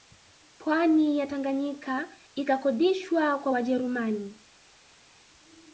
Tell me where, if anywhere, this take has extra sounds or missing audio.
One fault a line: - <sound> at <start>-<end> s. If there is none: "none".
none